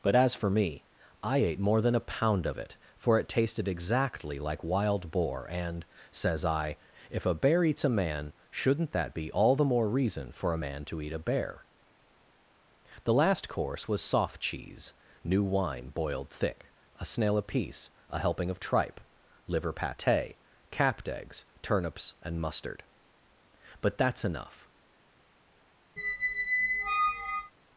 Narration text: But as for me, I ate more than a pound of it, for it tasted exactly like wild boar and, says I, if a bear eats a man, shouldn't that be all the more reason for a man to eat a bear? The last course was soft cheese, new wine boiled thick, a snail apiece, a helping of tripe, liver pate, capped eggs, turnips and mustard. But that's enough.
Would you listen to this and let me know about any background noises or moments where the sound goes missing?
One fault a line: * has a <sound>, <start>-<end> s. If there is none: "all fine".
* has a squeak, 26.0-27.5 s